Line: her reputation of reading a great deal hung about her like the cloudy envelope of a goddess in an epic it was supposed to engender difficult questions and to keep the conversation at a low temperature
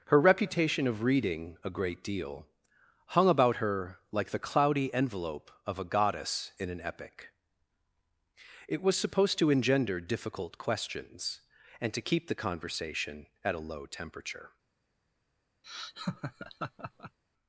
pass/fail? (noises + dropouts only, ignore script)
fail